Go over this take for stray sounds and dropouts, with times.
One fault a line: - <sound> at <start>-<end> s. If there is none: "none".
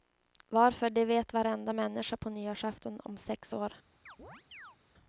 - chirp at 4.1-4.8 s